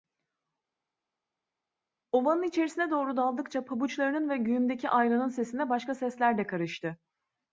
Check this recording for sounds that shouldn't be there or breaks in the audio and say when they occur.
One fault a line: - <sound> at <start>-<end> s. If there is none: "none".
none